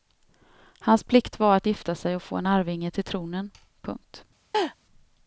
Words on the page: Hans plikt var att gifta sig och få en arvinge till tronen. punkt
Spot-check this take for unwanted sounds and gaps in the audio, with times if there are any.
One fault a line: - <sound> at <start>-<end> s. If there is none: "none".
- laugh at 4.5-4.8 s